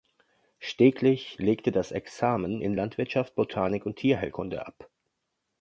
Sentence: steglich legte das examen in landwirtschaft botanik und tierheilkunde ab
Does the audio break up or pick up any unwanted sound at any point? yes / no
no